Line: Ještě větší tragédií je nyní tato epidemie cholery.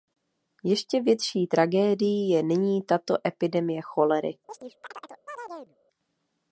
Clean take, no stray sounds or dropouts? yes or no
no